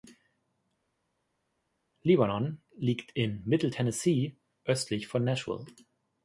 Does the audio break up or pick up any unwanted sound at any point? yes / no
no